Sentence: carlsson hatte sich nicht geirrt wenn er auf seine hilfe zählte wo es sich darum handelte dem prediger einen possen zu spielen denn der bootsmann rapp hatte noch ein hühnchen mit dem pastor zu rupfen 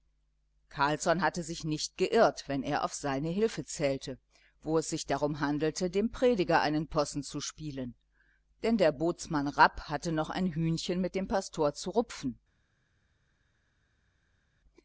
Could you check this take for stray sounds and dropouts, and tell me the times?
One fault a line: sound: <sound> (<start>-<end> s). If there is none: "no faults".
no faults